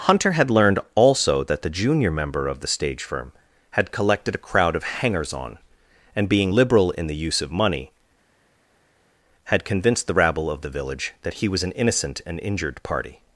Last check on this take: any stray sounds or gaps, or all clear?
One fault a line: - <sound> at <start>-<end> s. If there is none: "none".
none